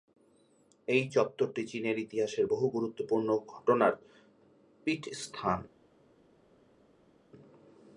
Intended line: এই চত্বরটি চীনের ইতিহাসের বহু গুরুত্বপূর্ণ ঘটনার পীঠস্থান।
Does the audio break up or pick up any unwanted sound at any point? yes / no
no